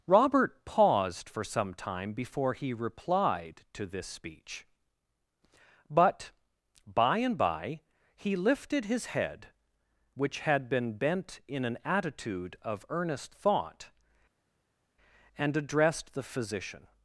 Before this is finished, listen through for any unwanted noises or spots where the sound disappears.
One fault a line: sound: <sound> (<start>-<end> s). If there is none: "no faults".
no faults